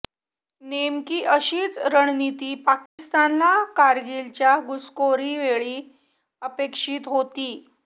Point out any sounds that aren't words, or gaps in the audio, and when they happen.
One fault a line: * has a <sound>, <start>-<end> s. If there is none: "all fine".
* has a dropout, 2.9-3.0 s